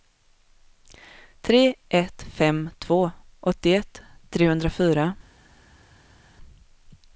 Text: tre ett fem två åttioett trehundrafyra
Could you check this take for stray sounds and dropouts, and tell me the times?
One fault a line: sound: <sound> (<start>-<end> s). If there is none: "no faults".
no faults